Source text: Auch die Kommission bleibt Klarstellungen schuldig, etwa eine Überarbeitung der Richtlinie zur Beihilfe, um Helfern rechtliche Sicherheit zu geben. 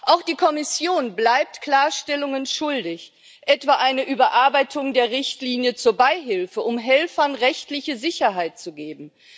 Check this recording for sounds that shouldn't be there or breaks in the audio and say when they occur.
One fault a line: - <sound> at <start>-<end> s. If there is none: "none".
none